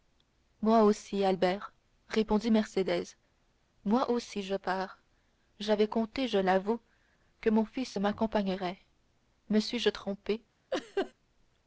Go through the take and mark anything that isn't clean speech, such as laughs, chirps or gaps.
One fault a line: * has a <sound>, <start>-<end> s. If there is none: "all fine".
* has a laugh, 10.7-11.1 s